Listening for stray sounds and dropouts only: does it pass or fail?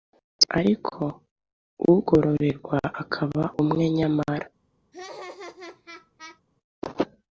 fail